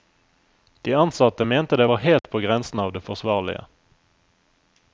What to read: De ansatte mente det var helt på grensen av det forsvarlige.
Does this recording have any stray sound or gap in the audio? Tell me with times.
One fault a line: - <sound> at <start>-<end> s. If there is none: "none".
- dropout at 2.2-2.2 s